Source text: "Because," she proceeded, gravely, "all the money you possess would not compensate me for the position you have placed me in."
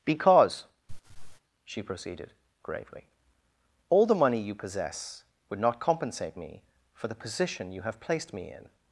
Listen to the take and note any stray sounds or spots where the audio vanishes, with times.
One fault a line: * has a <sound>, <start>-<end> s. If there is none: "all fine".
* has a laugh, 0.9-1.4 s